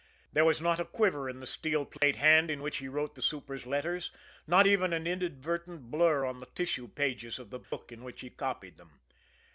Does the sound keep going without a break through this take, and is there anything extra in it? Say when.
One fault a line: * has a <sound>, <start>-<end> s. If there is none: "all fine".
* has a dropout, 2.0-2.0 s
* has a dropout, 7.6-7.7 s